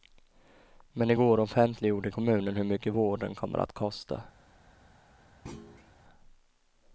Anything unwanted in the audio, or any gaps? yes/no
yes